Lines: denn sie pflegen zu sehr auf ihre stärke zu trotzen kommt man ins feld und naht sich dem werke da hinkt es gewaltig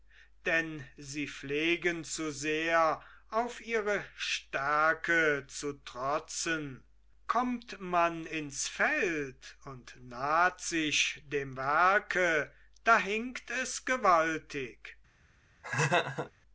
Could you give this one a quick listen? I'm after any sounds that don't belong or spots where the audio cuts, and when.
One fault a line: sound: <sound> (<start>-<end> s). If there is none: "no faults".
sound: laugh (15.6-16.3 s)